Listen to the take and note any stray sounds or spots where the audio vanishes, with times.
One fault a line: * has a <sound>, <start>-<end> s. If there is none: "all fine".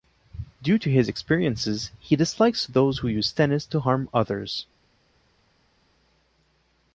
all fine